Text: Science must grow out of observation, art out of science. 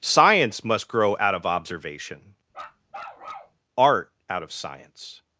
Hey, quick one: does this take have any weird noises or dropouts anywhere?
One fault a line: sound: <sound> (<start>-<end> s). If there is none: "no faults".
sound: bark (2.5-3.6 s)